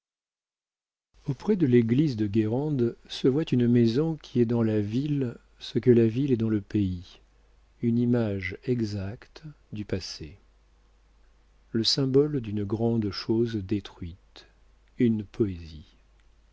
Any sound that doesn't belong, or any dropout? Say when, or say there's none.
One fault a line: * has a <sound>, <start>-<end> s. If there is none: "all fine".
all fine